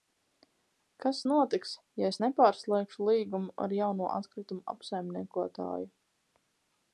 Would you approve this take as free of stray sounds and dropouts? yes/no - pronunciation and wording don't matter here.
yes